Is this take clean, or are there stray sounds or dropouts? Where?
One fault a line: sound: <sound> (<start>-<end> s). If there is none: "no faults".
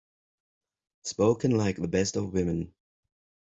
no faults